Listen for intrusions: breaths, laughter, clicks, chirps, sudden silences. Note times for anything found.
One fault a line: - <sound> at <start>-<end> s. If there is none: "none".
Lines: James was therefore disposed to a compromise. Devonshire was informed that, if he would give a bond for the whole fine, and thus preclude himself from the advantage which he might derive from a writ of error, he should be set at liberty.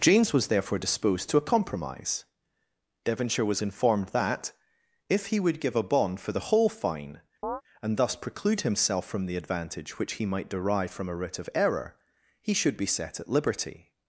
- chirp at 7.4-7.6 s